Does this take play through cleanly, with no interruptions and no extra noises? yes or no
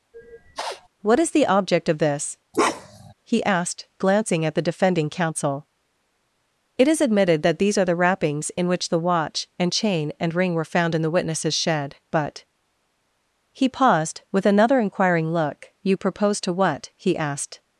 no